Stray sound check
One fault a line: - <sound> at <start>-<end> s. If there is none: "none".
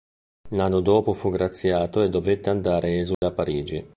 - dropout at 3.1-3.2 s